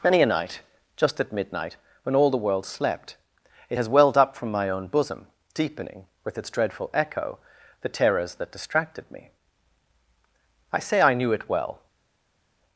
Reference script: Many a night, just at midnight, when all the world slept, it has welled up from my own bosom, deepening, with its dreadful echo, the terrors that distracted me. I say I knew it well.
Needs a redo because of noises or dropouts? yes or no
no